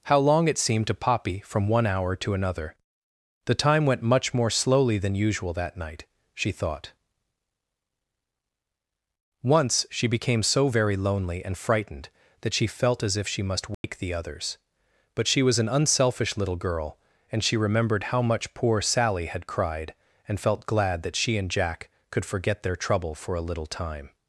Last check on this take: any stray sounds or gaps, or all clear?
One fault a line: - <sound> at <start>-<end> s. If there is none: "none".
- dropout at 13.7-13.8 s